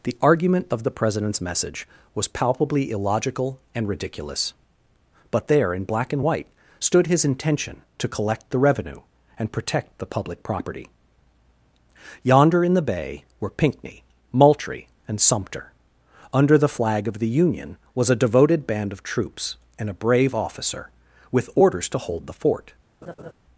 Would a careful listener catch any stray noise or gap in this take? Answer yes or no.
yes